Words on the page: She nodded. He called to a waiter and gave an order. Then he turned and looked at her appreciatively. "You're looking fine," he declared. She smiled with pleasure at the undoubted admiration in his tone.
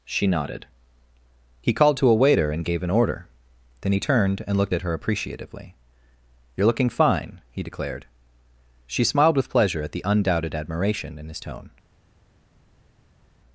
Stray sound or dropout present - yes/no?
no